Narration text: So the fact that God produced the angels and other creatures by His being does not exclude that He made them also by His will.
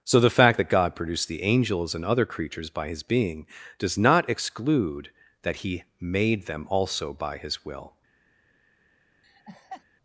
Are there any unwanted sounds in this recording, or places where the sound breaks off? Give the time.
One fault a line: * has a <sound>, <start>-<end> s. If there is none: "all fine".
* has a laugh, 9.2-9.8 s